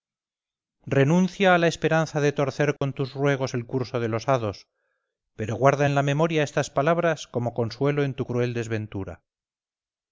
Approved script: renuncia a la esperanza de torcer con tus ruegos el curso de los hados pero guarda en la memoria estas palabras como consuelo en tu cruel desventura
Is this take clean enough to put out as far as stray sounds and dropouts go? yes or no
no